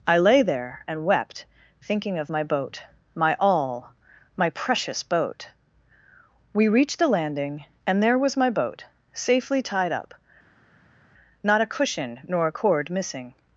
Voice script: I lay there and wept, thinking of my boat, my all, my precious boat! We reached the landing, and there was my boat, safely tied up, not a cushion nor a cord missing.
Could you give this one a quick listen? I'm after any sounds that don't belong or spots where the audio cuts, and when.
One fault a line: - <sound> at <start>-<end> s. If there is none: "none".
none